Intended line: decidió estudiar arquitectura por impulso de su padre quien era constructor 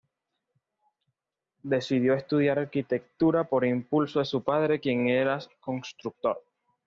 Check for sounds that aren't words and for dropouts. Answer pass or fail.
pass